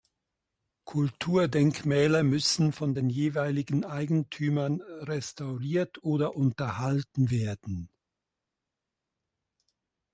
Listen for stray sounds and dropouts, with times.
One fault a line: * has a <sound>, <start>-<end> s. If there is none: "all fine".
all fine